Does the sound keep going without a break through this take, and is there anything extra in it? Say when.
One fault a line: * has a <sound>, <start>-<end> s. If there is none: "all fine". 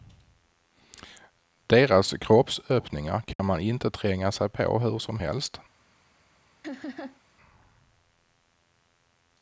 * has a dropout, 3.3-3.4 s
* has a laugh, 6.6-7.2 s